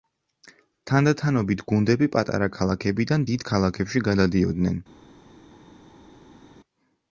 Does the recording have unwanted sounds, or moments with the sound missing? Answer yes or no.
no